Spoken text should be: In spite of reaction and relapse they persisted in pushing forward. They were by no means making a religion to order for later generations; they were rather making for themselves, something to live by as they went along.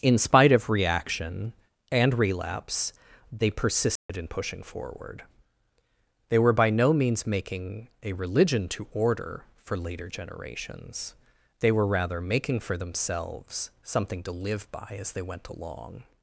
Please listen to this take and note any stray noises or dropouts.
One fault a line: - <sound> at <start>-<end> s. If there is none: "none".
- dropout at 4.0-4.1 s